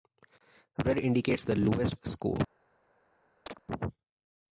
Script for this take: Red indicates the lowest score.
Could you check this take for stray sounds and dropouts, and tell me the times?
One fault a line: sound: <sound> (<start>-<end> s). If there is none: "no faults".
sound: chirp (3.5-3.6 s)